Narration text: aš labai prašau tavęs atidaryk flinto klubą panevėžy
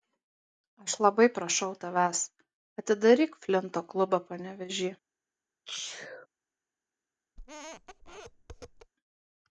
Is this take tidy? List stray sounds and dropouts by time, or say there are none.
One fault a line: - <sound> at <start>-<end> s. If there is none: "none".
- sneeze at 5.7-6.3 s
- squeak at 7.4-8.9 s